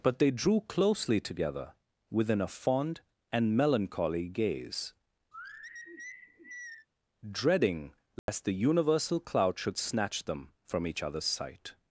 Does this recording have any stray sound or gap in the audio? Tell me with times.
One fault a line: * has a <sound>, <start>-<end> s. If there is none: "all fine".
* has a sigh, 5.3-6.9 s
* has a dropout, 8.2-8.3 s